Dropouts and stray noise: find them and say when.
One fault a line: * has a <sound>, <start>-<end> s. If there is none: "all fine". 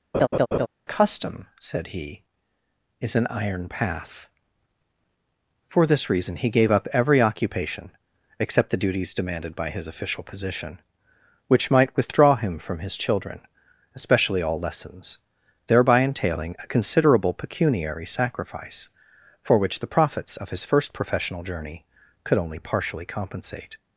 * has a laugh, 0.1-0.7 s